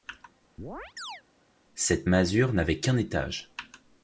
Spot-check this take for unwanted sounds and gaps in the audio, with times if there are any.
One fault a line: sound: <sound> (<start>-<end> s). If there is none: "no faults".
sound: chirp (0.6-1.2 s)